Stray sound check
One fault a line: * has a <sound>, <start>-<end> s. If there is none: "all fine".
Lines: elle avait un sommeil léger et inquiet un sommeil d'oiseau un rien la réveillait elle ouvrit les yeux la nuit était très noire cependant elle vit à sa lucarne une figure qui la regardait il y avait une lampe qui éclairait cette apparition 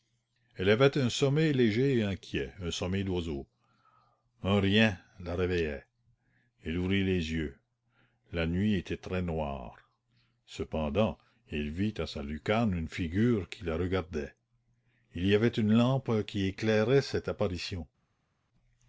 all fine